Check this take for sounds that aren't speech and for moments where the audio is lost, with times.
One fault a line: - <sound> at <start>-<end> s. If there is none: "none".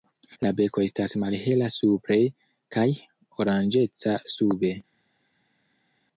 none